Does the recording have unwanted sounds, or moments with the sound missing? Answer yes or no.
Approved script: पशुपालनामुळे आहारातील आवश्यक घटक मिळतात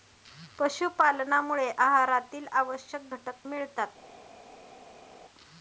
no